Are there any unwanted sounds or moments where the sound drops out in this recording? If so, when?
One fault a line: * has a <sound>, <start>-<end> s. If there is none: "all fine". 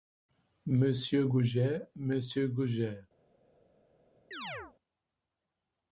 * has a chirp, 4.3-4.7 s